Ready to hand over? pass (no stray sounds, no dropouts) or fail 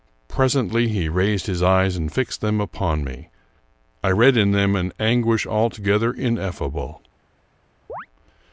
fail